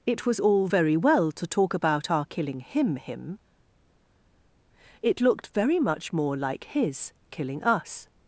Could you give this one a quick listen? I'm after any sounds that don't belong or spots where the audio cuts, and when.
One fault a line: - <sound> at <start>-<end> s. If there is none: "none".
none